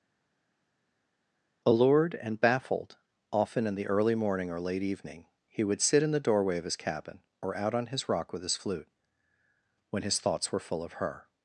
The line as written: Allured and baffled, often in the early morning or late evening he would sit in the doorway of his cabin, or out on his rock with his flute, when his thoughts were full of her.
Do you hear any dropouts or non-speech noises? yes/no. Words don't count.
no